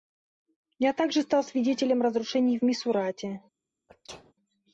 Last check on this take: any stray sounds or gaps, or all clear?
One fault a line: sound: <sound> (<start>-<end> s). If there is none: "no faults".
sound: sneeze (3.9-4.3 s)